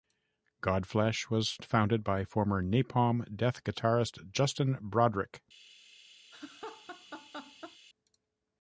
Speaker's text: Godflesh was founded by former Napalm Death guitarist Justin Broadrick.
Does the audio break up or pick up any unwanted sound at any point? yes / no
yes